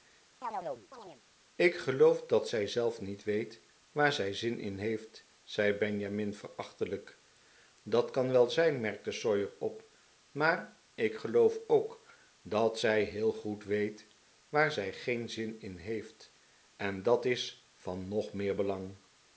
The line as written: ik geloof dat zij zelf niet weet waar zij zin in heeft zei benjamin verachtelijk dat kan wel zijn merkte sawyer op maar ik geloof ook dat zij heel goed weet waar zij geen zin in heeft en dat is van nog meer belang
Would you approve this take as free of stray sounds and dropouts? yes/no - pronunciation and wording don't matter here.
no